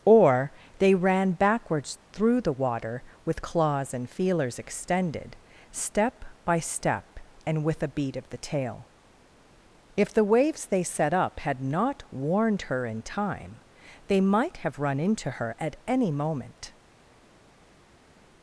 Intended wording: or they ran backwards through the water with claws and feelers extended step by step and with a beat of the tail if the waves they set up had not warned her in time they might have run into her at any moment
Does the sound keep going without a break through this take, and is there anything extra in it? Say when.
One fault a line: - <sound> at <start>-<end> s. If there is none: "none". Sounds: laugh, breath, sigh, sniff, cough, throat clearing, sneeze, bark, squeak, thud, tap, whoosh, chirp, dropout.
none